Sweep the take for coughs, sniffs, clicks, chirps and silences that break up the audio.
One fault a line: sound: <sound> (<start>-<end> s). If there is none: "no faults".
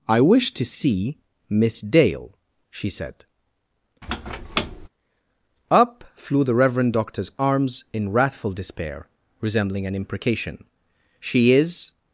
sound: squeak (4.0-4.9 s)